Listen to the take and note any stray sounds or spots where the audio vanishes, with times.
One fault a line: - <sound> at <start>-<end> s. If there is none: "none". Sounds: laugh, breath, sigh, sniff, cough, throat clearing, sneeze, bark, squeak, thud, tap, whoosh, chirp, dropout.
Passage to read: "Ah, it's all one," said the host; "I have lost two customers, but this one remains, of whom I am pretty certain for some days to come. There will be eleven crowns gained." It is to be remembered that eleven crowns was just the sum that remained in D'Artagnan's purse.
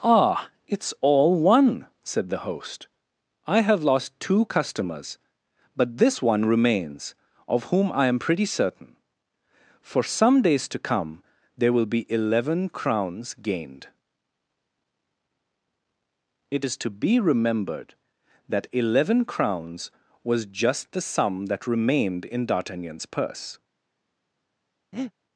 - breath at 24.9-25.1 s